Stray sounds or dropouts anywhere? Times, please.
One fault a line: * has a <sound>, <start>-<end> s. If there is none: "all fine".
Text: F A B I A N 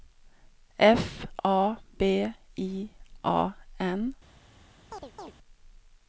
* has a chirp, 4.9-5.3 s